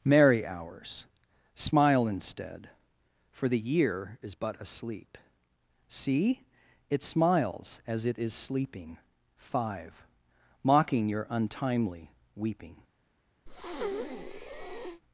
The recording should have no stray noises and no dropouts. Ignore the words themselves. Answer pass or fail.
fail